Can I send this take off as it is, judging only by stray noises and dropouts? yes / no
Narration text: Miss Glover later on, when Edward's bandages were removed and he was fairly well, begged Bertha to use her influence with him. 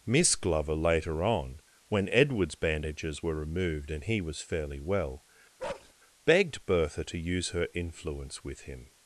no